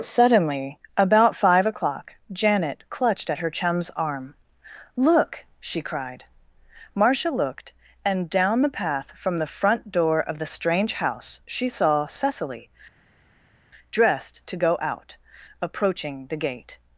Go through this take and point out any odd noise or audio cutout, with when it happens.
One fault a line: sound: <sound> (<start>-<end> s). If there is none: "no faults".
no faults